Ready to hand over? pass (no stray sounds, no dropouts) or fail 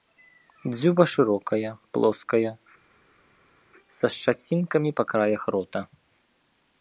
pass